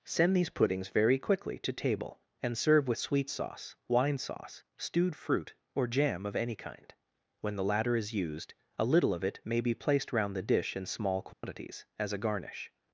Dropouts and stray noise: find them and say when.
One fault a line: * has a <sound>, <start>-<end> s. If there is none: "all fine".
* has a dropout, 11.3-11.4 s